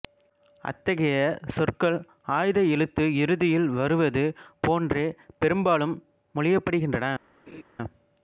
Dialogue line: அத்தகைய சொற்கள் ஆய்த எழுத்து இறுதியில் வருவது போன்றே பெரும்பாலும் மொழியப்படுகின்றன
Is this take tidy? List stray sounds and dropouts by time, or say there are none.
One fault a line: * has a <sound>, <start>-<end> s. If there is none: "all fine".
* has a laugh, 7.5-7.6 s